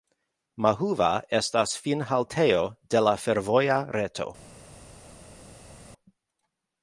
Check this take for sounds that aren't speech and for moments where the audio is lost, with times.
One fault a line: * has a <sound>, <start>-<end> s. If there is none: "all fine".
all fine